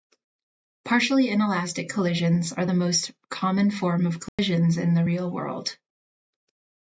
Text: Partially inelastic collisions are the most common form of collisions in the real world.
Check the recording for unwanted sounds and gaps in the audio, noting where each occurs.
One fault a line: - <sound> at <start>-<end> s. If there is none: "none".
- dropout at 4.3-4.4 s